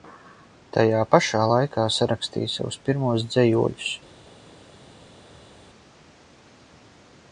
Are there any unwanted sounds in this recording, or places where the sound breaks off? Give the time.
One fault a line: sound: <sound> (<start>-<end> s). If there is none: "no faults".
no faults